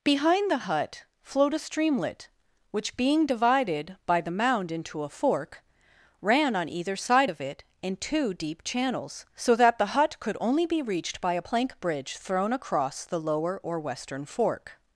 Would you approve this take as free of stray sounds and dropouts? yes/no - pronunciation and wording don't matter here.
yes